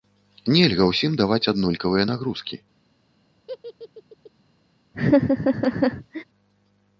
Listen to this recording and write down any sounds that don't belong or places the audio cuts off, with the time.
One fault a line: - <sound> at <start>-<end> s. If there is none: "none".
- laugh at 3.5-4.3 s
- laugh at 4.9-6.2 s